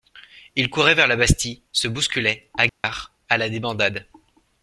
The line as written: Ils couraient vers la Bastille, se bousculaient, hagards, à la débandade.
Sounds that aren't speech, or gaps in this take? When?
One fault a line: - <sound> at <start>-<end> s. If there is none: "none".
- dropout at 2.7-2.8 s